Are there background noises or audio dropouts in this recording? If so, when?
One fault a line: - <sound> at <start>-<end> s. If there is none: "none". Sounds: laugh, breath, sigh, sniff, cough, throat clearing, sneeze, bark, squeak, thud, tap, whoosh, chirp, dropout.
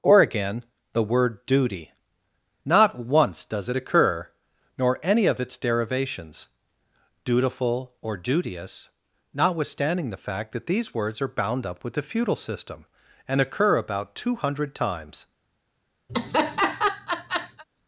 - laugh at 16.1-17.6 s